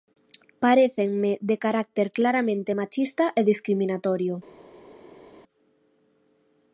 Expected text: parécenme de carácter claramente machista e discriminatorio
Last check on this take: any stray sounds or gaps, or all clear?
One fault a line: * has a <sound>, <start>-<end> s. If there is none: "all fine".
all fine